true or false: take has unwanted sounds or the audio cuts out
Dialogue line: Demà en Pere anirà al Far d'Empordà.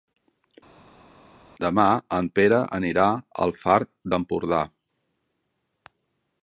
false